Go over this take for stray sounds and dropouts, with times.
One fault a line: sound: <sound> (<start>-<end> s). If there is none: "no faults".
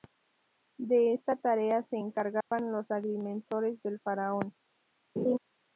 sound: dropout (2.4-2.5 s)
sound: laugh (5.2-5.4 s)